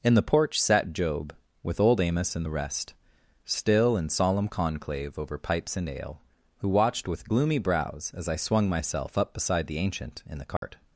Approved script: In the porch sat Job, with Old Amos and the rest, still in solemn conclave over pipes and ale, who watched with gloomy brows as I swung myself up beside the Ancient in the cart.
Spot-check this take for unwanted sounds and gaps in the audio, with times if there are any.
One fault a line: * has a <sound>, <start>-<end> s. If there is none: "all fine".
* has a dropout, 10.6-10.6 s